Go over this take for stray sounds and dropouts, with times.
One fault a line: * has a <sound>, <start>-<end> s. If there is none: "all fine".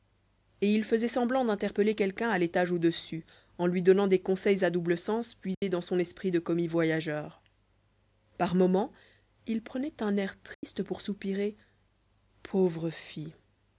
* has a dropout, 5.5-5.6 s
* has a dropout, 10.5-10.6 s